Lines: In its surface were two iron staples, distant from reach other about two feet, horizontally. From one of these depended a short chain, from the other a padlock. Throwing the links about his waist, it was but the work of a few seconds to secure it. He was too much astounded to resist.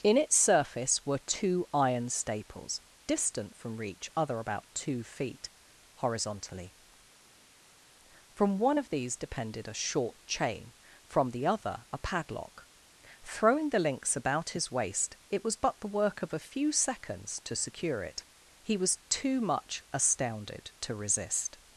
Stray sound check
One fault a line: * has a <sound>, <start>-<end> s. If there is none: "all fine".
all fine